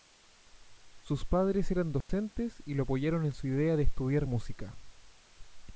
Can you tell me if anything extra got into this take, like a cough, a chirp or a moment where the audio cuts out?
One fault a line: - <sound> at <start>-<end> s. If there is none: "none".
- dropout at 2.0-2.1 s